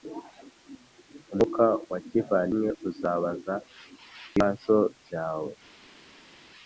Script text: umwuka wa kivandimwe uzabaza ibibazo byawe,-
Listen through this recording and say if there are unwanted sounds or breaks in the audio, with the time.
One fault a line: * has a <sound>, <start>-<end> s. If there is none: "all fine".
all fine